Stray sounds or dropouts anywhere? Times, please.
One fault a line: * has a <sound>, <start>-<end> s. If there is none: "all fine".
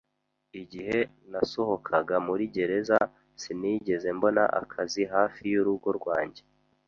all fine